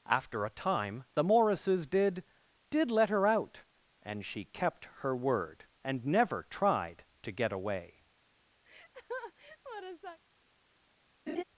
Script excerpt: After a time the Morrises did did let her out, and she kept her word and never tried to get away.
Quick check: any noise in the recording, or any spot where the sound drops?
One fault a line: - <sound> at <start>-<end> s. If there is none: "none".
- laugh at 8.6-10.2 s
- laugh at 11.3-11.4 s